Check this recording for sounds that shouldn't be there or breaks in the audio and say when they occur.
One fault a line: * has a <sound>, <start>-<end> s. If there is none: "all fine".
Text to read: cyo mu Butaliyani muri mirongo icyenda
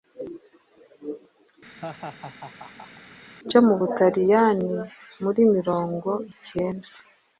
* has a laugh, 1.8-3.0 s